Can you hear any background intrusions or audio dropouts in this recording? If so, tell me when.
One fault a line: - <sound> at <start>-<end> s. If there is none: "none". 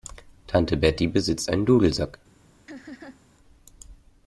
- laugh at 2.7-3.2 s